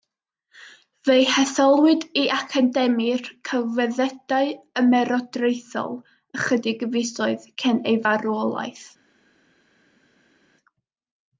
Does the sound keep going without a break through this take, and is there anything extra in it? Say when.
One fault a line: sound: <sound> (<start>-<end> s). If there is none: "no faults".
no faults